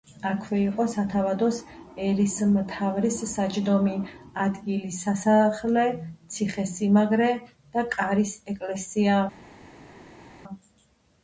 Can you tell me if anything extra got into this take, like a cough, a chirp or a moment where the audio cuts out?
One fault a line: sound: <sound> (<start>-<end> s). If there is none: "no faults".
no faults